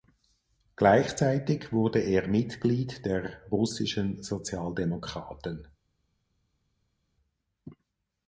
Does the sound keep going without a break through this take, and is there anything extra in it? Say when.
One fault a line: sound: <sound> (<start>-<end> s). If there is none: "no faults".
no faults